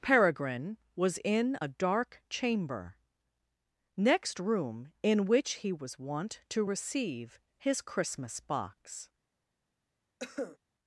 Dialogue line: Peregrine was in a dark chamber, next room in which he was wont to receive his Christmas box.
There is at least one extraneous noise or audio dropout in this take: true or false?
true